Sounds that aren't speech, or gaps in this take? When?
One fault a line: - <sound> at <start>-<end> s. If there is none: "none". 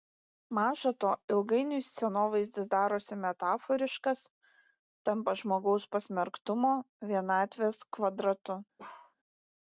- bark at 8.8-9.2 s